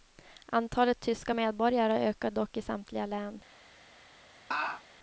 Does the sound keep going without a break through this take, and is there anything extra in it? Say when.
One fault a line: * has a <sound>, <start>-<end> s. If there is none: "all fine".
* has a laugh, 4.5-4.8 s